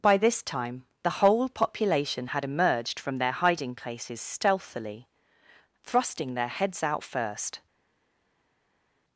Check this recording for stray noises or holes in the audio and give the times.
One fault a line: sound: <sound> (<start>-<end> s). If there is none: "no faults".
no faults